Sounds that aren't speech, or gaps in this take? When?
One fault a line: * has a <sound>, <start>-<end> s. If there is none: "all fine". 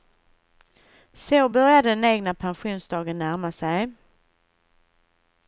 all fine